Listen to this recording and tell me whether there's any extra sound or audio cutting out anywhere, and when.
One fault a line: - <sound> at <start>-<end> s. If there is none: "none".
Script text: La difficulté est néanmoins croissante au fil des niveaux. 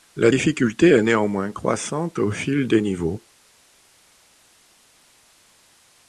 none